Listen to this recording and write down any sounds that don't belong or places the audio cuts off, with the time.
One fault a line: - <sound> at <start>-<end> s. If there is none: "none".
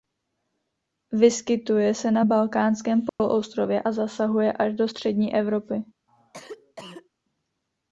- dropout at 3.1-3.2 s
- cough at 6.1-7.1 s